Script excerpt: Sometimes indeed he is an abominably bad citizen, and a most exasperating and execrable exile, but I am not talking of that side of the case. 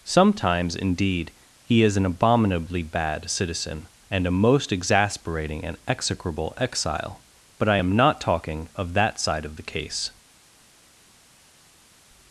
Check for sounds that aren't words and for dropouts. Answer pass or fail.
pass